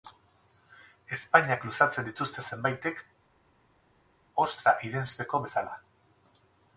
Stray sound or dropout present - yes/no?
no